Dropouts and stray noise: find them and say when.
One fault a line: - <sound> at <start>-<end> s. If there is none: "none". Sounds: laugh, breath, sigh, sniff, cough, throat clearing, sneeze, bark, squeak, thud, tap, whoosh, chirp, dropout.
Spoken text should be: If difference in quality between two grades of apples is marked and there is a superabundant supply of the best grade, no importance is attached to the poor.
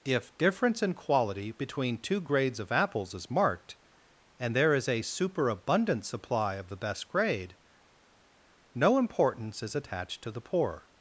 none